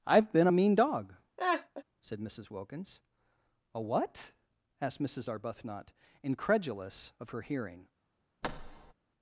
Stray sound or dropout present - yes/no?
yes